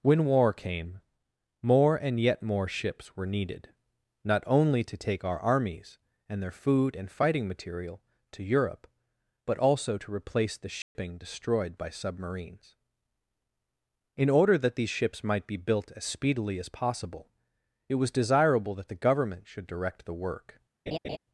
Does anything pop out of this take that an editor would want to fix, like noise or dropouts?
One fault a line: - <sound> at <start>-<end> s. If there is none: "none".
- dropout at 10.8-11.0 s
- laugh at 20.9-21.2 s